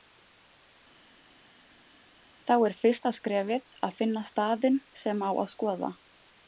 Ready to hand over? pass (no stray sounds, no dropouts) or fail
pass